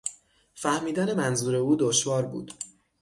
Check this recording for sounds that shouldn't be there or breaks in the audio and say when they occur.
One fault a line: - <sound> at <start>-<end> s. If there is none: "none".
none